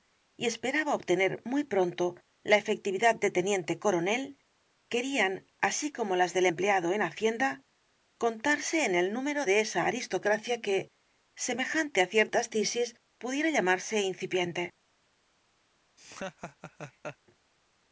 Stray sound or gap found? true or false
true